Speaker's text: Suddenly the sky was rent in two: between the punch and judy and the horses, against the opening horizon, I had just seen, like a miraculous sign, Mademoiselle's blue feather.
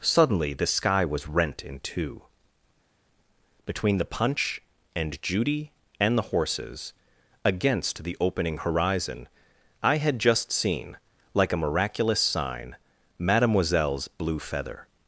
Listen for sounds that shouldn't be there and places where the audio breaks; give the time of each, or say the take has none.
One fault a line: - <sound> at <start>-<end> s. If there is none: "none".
none